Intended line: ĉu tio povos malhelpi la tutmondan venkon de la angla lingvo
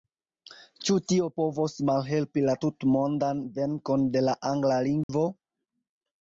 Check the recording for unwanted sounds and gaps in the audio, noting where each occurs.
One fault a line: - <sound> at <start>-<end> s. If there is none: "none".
- dropout at 5.0-5.1 s